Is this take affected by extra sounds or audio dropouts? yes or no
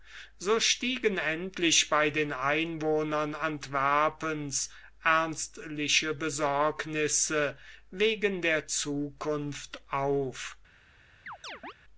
yes